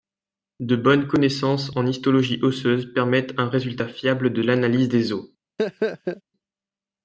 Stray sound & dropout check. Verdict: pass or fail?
fail